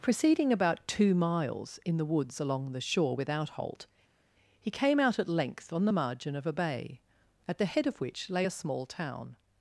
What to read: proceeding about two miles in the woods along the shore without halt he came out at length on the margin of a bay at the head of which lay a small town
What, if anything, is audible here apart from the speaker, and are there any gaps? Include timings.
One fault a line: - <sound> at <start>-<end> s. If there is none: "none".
none